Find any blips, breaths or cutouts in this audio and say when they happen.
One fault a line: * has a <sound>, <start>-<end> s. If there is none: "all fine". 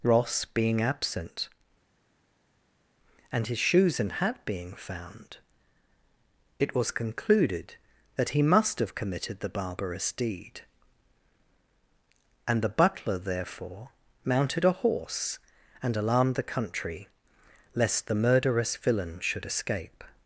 all fine